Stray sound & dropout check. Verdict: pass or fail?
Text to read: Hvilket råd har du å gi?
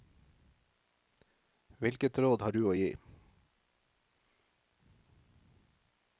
pass